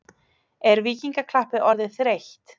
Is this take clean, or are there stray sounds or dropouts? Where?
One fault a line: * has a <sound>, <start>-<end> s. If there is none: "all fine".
all fine